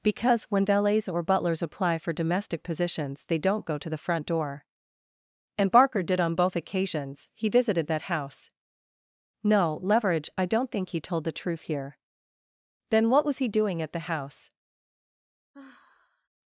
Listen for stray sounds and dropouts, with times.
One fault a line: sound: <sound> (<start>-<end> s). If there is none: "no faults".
sound: sigh (15.5-16.3 s)